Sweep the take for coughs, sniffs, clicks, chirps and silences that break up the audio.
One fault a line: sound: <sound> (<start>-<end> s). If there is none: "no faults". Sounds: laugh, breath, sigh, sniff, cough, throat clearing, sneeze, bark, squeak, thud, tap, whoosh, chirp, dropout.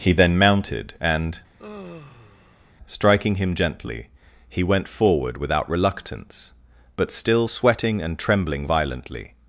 sound: sigh (1.6-2.7 s)